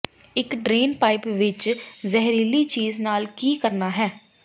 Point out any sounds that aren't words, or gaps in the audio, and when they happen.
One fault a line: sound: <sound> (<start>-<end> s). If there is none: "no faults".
no faults